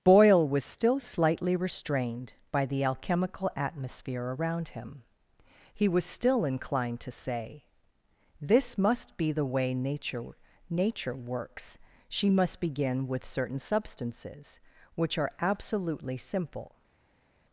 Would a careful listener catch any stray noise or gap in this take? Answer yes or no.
no